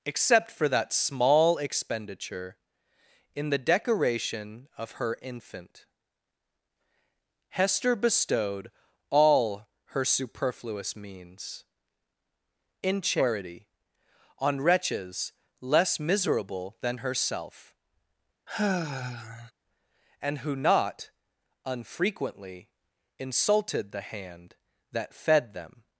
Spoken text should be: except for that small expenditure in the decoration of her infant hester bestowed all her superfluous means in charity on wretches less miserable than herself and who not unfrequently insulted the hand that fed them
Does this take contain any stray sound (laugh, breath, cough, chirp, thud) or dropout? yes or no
yes